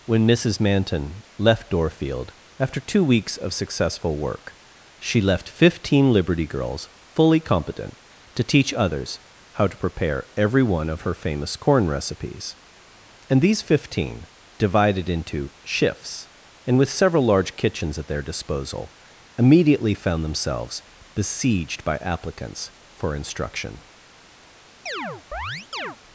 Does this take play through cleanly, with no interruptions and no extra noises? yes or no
no